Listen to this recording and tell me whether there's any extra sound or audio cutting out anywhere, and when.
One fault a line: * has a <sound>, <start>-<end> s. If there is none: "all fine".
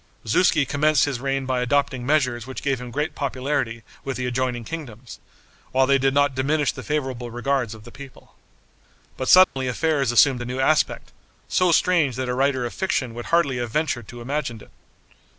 * has a dropout, 9.4-9.6 s